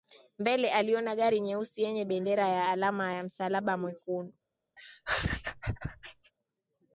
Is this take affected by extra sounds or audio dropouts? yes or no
yes